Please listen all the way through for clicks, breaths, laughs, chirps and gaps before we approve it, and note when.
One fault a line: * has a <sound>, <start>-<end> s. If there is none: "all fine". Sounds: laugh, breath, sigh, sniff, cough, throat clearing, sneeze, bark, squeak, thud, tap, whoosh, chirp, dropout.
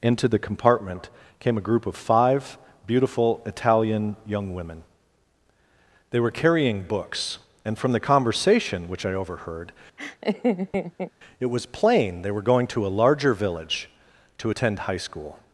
* has a laugh, 10.0-11.1 s